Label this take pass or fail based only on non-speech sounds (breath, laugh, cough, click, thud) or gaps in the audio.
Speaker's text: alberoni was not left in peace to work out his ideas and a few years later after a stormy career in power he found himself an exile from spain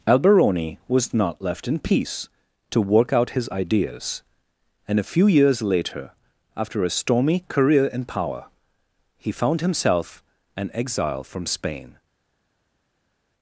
pass